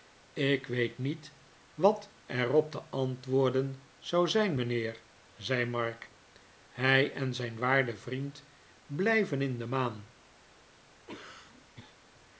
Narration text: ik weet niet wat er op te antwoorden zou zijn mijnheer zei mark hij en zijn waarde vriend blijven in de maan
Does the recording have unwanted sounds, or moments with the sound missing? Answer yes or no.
yes